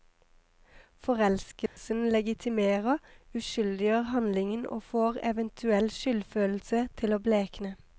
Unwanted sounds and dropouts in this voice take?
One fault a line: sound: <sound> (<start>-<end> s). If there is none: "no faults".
sound: dropout (1.7-1.8 s)